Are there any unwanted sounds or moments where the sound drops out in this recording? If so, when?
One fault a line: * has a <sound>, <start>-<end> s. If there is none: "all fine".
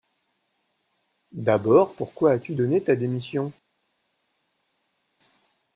all fine